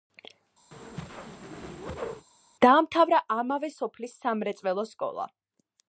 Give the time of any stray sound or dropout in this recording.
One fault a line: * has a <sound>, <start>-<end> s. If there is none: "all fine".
* has a whoosh, 0.7-2.3 s